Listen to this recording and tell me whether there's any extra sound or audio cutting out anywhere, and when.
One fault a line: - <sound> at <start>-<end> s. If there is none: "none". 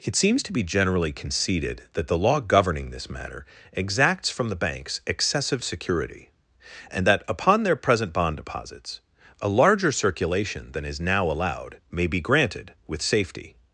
none